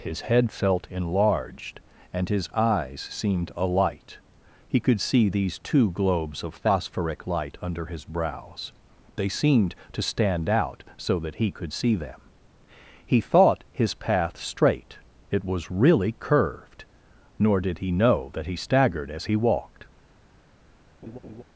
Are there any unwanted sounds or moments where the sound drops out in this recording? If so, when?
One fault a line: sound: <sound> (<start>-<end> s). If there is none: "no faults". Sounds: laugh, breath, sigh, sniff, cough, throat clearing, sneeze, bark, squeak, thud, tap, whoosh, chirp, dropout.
sound: laugh (21.0-21.4 s)